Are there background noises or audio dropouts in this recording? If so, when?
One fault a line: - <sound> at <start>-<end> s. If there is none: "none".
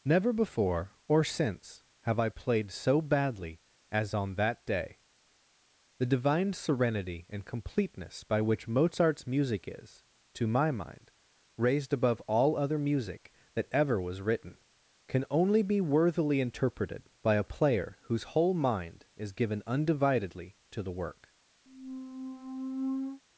- squeak at 21.7-23.2 s